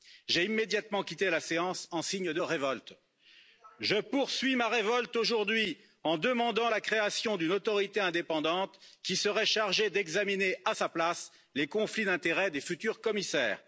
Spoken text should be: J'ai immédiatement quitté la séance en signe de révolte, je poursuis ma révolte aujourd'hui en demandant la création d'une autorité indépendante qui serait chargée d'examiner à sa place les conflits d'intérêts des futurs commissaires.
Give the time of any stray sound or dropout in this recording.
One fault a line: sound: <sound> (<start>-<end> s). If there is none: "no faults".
no faults